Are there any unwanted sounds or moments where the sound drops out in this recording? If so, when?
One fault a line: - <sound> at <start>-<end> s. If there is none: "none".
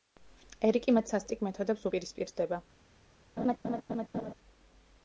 - laugh at 3.4-4.3 s